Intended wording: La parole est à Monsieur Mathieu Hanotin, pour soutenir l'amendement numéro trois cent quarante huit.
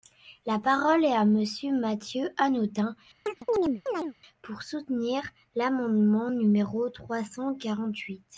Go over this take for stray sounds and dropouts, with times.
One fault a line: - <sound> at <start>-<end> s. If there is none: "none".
- chirp at 3.3-4.1 s